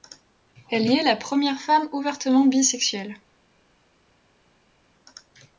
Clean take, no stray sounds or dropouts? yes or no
yes